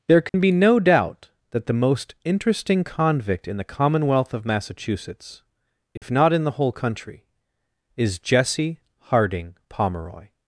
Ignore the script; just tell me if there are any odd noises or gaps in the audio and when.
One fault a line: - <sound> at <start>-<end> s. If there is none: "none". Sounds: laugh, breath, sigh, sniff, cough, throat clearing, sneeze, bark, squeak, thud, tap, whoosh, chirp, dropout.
- dropout at 0.3-0.3 s
- dropout at 6.0-6.0 s